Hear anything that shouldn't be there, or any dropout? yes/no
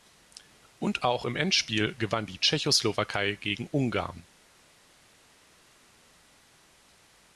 no